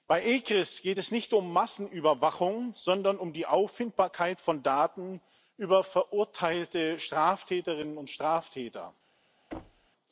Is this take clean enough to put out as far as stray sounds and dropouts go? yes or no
no